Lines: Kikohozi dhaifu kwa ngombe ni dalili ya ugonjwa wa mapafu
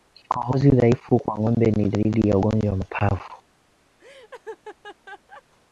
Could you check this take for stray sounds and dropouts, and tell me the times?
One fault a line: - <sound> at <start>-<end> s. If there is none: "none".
- laugh at 4.0-5.4 s